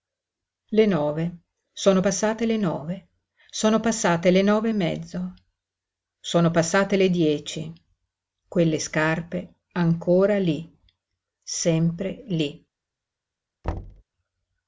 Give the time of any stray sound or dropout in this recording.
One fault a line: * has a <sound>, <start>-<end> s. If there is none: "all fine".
* has a thud, 13.6-14.0 s